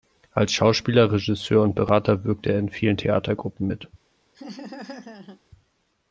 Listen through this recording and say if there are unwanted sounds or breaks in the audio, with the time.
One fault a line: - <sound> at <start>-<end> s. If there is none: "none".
- laugh at 4.3-5.4 s